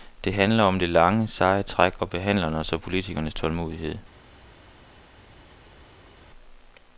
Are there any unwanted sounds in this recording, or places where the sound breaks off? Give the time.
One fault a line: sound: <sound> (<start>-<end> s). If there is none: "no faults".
no faults